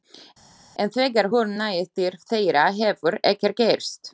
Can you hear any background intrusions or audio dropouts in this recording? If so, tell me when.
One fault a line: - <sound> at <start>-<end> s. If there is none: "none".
none